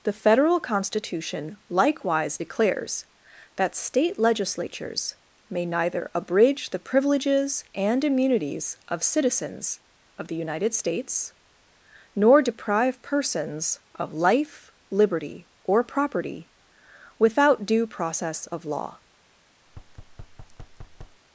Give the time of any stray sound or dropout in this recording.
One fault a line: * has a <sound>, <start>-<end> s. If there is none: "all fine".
* has a thud, 19.7-21.2 s